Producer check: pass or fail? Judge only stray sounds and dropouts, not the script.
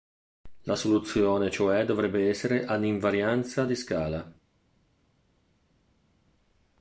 pass